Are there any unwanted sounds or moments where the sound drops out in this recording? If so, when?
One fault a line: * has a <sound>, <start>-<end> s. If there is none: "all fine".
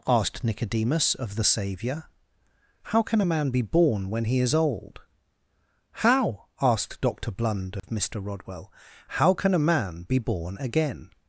* has a dropout, 7.8-7.8 s